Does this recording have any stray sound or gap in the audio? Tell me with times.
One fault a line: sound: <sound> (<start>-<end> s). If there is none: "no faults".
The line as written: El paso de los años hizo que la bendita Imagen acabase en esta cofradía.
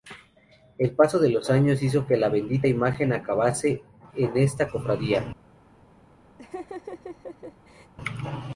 sound: laugh (6.4-7.9 s)